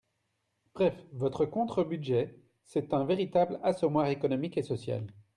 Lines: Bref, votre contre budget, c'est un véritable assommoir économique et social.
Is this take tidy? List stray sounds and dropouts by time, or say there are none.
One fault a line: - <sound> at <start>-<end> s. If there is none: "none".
none